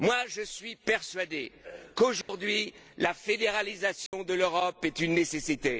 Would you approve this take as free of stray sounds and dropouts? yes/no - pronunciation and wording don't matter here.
no